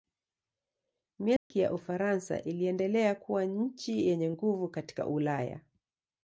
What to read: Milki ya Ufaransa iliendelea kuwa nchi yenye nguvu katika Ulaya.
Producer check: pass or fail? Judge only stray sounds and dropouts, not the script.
fail